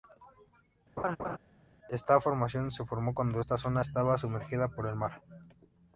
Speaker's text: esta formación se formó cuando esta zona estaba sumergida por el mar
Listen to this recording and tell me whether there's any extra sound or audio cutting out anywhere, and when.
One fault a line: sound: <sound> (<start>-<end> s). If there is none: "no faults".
sound: laugh (1.0-1.4 s)